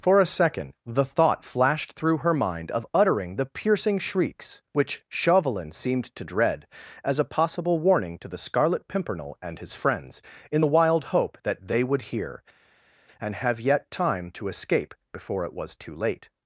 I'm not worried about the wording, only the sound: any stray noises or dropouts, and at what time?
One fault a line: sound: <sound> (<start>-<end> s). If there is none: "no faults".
no faults